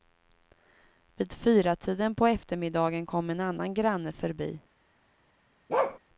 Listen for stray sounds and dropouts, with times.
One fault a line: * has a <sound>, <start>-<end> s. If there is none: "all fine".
* has a bark, 5.7-6.0 s